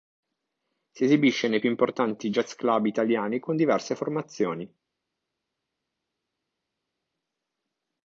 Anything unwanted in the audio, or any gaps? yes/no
no